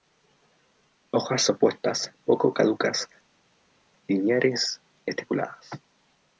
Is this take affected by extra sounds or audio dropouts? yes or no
no